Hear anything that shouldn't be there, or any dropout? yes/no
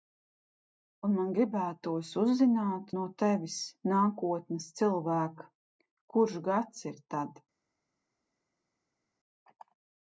no